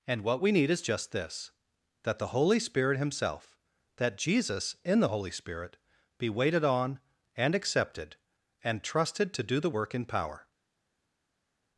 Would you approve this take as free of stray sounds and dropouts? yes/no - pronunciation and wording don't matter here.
yes